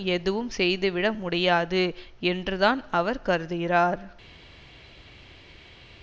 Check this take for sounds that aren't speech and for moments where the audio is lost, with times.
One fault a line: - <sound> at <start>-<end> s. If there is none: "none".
none